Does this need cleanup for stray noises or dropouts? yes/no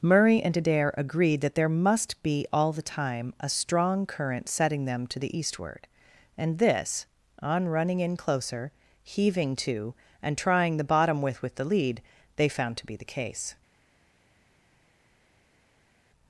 no